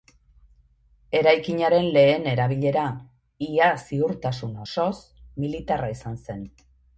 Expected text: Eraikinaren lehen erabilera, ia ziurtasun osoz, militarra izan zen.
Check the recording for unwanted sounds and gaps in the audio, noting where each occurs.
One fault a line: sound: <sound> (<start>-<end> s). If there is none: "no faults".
no faults